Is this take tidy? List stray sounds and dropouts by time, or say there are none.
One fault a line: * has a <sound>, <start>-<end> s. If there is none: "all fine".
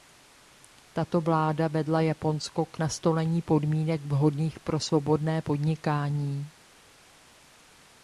all fine